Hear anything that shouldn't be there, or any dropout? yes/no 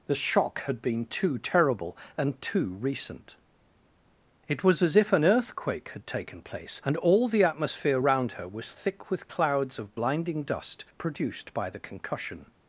no